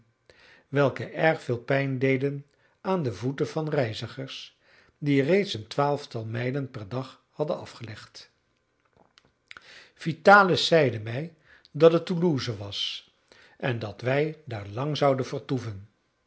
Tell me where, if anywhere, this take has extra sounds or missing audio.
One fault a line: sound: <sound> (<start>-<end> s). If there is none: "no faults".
no faults